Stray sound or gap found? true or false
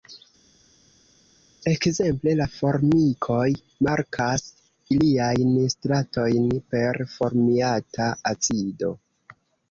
false